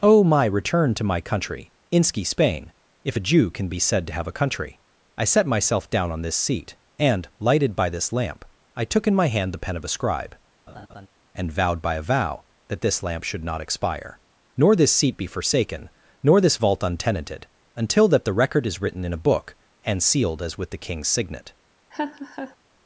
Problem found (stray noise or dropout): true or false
true